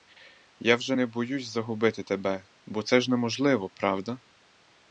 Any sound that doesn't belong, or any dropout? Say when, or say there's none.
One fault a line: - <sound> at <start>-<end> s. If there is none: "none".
none